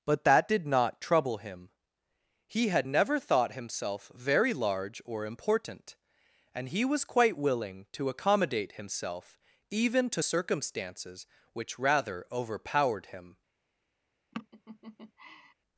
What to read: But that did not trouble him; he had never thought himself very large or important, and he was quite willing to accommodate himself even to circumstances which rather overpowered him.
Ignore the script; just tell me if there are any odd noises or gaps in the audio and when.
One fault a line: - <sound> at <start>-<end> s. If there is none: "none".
- laugh at 14.3-15.5 s